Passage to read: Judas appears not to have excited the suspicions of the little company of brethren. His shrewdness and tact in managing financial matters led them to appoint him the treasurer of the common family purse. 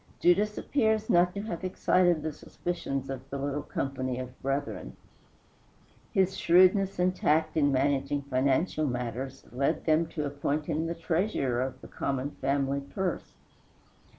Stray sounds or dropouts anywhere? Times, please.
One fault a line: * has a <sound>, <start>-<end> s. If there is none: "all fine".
all fine